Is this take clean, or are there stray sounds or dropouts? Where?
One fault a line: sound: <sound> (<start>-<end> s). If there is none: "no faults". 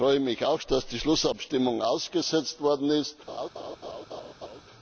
sound: laugh (3.3-4.6 s)